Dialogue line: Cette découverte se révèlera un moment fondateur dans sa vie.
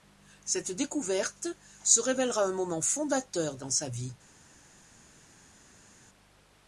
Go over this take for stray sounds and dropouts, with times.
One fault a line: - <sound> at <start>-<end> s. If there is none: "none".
none